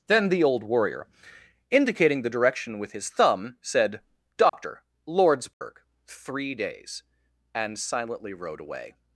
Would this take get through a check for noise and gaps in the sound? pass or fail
fail